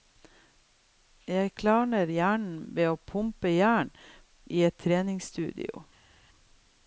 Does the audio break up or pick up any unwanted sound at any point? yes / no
no